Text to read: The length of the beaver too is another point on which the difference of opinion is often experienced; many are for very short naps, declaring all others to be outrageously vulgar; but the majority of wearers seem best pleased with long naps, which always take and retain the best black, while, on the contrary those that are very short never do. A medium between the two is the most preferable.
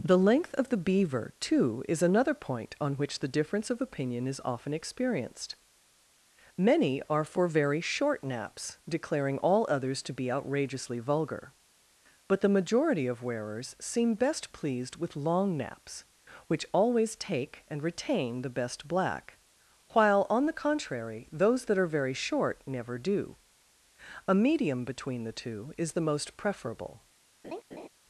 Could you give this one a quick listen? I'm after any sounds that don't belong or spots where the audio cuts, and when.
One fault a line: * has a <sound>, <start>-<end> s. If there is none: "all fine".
* has a laugh, 27.4-27.9 s